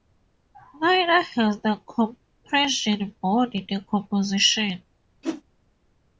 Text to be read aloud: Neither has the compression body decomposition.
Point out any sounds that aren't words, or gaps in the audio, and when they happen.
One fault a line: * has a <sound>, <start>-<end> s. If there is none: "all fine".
* has a whoosh, 5.2-5.4 s